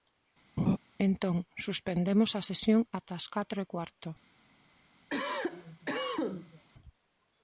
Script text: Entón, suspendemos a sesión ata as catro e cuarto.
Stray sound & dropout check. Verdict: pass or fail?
fail